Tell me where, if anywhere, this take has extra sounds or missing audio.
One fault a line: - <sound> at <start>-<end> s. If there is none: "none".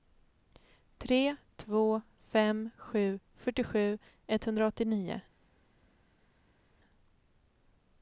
none